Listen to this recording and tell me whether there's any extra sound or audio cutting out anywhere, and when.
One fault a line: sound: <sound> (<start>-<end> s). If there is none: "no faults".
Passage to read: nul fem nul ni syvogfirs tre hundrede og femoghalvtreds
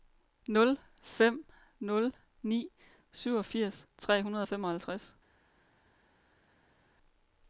no faults